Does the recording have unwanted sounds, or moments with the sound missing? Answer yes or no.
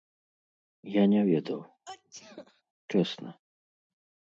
yes